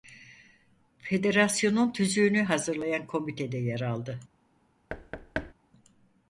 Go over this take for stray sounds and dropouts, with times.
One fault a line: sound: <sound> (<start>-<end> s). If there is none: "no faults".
sound: thud (4.9-5.5 s)